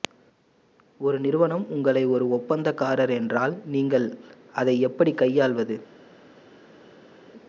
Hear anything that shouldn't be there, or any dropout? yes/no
no